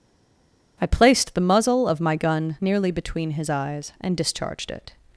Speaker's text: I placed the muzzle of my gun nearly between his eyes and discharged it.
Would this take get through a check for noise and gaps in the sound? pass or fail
pass